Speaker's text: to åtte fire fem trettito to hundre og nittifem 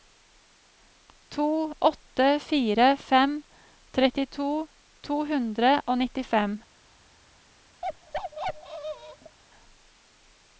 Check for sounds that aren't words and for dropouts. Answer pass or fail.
fail